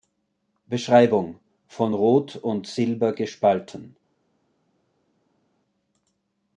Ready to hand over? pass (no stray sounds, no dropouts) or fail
pass